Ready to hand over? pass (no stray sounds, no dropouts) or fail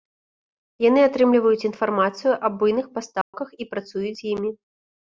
fail